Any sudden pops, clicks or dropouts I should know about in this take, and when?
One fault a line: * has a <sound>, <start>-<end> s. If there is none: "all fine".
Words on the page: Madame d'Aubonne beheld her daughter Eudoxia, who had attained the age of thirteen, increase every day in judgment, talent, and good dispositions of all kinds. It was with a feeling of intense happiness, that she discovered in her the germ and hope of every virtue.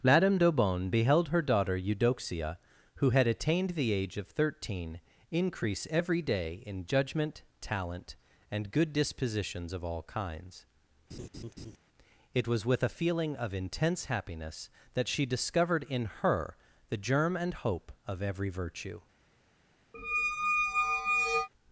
* has a laugh, 11.1-11.8 s
* has a squeak, 19.9-21.5 s